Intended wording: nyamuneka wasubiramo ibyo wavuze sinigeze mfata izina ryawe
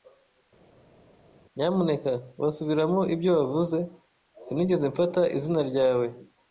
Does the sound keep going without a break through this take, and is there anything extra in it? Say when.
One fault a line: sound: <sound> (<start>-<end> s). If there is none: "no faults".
no faults